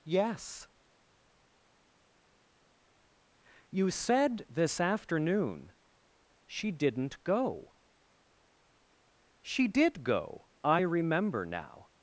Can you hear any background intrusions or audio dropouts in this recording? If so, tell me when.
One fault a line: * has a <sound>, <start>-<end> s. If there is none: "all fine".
all fine